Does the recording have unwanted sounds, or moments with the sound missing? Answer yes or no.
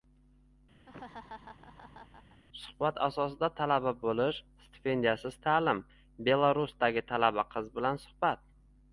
yes